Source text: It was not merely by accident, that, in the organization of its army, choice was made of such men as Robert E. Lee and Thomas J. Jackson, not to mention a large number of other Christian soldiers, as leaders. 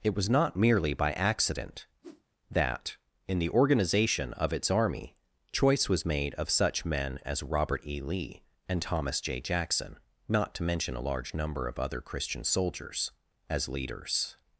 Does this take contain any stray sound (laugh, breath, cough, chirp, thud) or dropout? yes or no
yes